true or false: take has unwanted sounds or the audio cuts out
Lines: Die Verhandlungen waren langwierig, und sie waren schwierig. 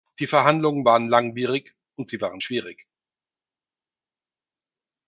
false